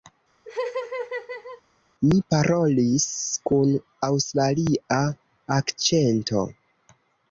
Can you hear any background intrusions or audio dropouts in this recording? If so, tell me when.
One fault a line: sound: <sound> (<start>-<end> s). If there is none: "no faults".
sound: laugh (0.4-1.6 s)